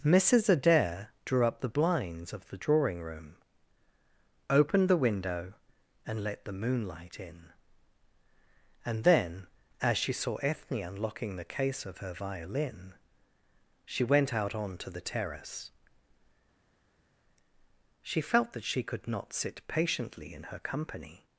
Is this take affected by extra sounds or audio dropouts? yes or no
no